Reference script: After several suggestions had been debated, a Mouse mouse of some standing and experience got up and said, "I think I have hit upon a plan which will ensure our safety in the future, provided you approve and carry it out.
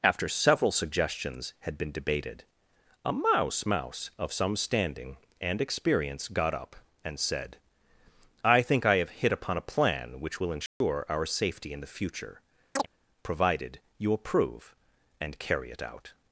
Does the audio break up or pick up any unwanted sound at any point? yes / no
yes